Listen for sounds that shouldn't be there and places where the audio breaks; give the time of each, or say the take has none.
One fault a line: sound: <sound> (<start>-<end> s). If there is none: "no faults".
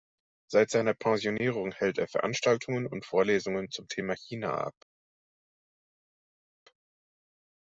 no faults